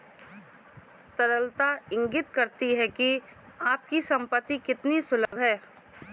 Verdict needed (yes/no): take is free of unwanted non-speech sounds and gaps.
no